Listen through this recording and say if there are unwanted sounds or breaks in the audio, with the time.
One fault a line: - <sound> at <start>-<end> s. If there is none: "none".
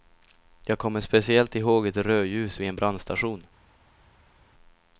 none